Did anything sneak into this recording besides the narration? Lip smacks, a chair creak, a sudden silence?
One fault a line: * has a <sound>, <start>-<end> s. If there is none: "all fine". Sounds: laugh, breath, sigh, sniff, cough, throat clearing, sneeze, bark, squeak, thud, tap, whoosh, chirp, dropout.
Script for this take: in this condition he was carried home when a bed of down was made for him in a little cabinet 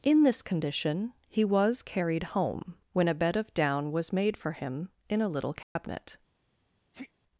* has a dropout, 5.6-5.8 s
* has a sneeze, 6.9-7.1 s